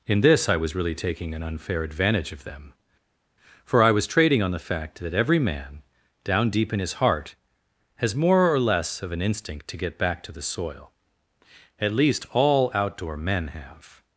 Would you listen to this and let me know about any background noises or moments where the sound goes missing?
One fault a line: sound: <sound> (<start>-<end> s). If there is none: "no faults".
no faults